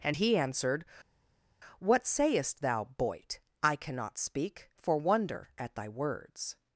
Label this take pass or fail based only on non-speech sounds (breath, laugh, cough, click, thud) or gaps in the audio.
pass